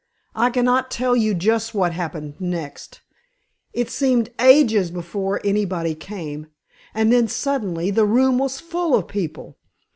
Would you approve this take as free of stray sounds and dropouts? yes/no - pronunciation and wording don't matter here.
yes